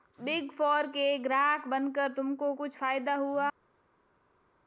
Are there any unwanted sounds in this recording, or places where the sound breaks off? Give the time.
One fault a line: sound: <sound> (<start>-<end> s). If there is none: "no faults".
no faults